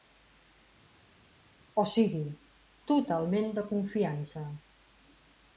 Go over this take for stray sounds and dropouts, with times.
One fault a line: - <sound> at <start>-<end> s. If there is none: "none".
none